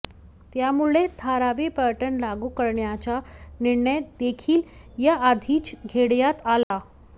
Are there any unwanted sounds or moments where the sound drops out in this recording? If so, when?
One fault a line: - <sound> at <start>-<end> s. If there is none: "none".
- dropout at 6.6-6.7 s